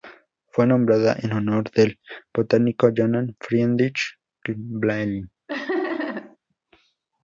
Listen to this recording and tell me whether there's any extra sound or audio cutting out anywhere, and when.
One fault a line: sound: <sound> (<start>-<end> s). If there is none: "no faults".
sound: laugh (5.5-6.4 s)